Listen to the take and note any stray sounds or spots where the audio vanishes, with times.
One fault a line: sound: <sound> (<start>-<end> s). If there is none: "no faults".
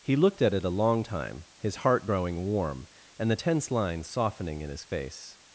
no faults